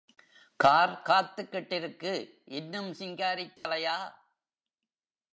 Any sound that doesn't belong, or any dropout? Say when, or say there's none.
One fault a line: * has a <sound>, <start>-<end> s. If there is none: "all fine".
* has a dropout, 3.6-3.6 s